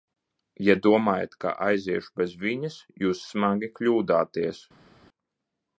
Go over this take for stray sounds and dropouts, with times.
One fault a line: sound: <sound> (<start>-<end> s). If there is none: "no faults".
no faults